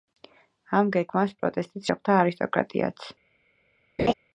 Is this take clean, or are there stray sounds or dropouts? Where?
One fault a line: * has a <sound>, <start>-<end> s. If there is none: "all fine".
* has a laugh, 4.0-4.1 s